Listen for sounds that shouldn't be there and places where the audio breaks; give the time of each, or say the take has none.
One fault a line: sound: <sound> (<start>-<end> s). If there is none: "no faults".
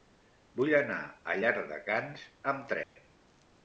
sound: dropout (2.8-3.0 s)